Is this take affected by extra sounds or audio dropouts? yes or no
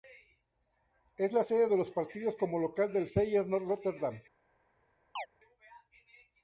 yes